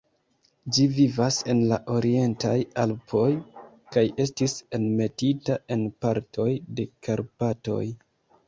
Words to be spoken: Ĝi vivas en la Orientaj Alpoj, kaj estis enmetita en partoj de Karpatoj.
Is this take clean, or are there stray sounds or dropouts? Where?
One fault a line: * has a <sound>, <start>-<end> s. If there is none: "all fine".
all fine